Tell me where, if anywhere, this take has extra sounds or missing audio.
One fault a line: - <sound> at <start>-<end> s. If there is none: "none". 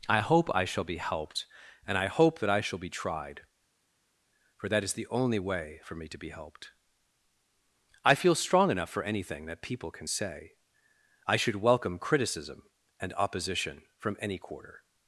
none